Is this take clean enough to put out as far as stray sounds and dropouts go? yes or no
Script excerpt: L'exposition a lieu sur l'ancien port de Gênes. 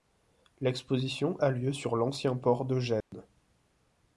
no